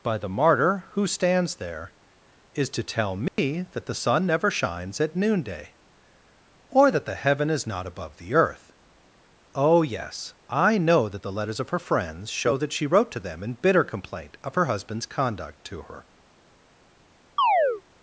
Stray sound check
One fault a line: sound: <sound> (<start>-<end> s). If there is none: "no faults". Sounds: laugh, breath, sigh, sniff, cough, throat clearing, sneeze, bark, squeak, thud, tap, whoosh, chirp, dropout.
sound: dropout (3.3-3.4 s)
sound: chirp (17.4-17.8 s)